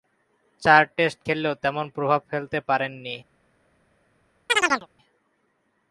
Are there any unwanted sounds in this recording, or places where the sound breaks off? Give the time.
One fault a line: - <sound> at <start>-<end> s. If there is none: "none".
- chirp at 4.5-4.9 s